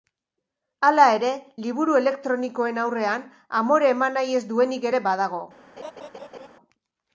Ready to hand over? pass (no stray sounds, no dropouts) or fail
fail